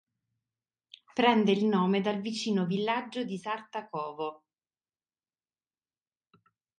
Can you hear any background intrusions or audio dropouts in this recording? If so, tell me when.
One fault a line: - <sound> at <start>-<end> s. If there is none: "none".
none